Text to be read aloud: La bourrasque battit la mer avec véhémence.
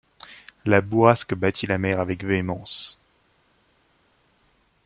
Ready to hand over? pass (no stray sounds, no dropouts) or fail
pass